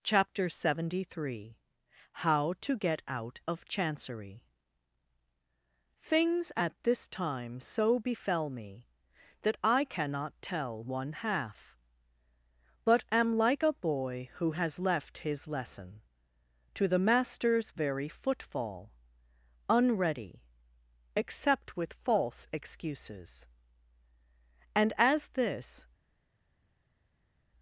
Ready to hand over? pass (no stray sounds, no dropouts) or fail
pass